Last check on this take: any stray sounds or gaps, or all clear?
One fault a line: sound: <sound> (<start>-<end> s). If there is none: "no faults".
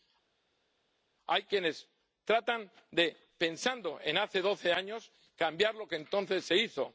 no faults